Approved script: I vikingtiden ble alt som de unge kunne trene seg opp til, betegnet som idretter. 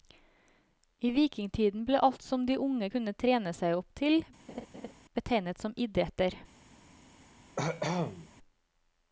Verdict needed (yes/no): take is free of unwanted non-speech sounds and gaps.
no